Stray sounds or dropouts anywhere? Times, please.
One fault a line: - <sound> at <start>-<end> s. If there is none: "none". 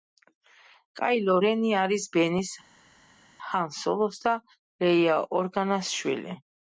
none